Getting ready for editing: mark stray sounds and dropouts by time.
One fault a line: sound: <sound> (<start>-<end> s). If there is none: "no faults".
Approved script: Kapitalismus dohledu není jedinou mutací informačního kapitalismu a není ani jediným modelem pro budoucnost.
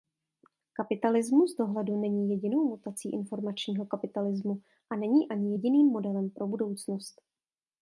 no faults